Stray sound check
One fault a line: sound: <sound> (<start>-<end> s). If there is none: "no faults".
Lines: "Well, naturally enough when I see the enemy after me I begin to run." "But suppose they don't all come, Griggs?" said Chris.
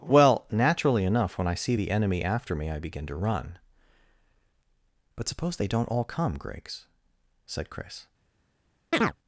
sound: chirp (8.9-9.2 s)